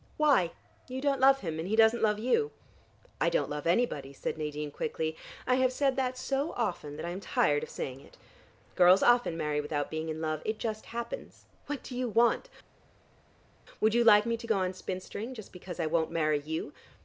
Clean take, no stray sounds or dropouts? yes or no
yes